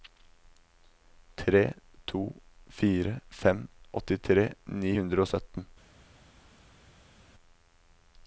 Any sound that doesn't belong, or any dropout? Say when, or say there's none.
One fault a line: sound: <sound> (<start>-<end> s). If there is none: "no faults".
no faults